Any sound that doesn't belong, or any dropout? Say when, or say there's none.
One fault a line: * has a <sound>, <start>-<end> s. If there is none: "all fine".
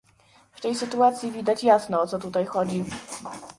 all fine